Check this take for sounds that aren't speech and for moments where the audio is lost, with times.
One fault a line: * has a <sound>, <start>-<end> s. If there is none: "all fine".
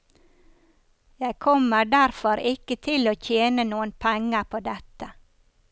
all fine